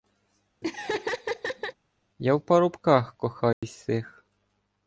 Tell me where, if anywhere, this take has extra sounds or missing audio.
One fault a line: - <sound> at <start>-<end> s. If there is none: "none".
- laugh at 0.6-1.7 s
- dropout at 3.5-3.6 s